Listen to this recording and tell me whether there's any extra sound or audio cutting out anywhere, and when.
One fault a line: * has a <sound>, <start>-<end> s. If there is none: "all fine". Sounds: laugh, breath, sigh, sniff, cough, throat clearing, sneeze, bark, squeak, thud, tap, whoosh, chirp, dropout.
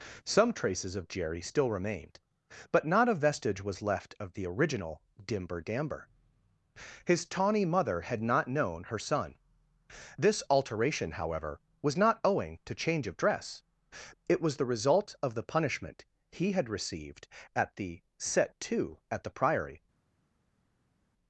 all fine